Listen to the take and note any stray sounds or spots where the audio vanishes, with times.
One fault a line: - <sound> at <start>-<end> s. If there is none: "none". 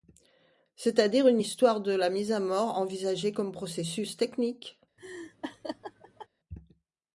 - laugh at 5.0-6.3 s